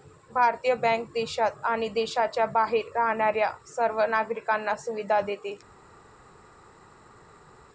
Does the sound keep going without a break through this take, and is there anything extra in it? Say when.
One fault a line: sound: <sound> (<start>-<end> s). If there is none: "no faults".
no faults